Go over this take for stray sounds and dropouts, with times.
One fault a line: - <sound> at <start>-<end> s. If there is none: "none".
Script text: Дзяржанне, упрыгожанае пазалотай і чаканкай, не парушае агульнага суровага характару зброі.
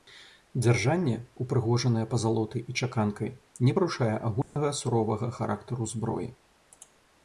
- dropout at 4.4-4.6 s